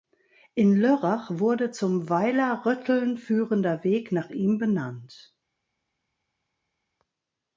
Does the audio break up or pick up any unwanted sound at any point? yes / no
no